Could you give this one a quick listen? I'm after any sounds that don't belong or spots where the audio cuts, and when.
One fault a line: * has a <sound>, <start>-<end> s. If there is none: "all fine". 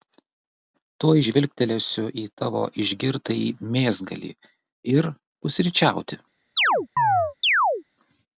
* has a chirp, 6.6-7.8 s